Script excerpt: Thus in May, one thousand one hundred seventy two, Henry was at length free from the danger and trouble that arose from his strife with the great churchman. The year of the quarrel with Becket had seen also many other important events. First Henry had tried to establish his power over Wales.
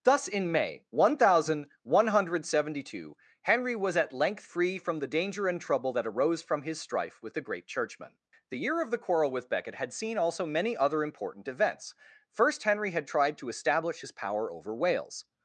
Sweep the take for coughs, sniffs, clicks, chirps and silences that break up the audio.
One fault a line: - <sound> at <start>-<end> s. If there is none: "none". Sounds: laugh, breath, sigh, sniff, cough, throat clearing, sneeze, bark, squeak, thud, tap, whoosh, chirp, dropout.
none